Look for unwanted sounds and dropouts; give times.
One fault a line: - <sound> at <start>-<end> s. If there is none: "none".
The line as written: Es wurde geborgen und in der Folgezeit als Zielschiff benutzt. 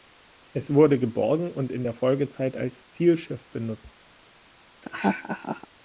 - laugh at 4.8-5.7 s